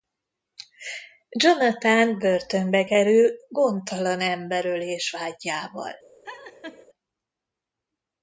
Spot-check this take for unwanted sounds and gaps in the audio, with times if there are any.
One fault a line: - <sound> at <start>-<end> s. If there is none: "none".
- laugh at 6.2-6.9 s